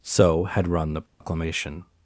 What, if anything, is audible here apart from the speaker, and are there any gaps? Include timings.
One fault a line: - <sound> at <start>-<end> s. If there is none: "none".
- dropout at 1.1-1.2 s